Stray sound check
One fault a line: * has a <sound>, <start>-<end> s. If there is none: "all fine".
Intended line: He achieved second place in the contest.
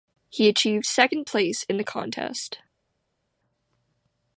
all fine